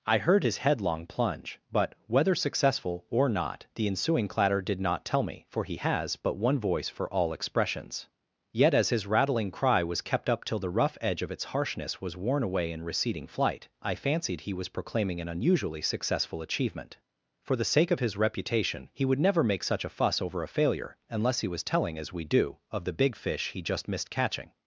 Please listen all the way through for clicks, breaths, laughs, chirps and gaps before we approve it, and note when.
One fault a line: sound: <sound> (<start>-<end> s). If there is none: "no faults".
no faults